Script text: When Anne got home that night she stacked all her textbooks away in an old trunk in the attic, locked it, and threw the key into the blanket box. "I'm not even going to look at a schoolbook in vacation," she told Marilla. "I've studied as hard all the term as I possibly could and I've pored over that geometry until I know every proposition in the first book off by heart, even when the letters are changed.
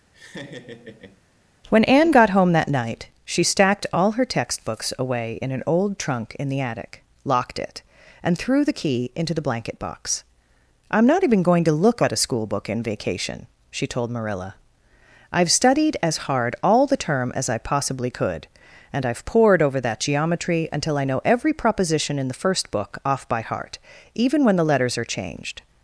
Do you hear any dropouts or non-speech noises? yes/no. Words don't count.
yes